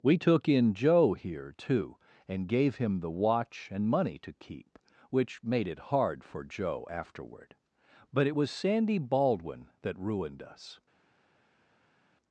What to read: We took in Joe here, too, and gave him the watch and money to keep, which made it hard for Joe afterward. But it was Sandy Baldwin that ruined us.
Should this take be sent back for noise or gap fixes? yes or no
no